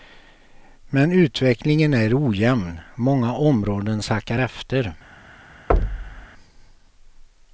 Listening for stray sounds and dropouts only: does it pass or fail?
fail